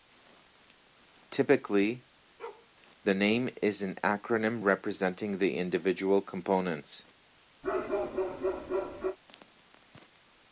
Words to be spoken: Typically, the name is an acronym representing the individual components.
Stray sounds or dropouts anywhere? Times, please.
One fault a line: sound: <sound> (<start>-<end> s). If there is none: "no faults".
sound: bark (2.4-2.7 s)
sound: bark (7.6-9.2 s)